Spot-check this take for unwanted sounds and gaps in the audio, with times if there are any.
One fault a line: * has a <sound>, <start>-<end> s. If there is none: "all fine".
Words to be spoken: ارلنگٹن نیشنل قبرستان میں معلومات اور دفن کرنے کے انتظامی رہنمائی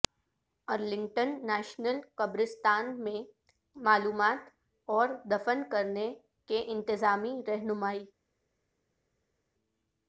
all fine